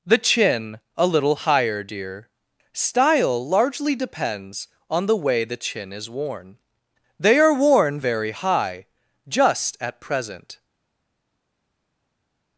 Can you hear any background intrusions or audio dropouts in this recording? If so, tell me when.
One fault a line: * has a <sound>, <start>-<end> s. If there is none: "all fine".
all fine